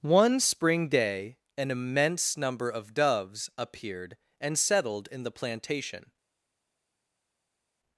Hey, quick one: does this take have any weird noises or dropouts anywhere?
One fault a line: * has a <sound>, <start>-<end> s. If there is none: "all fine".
all fine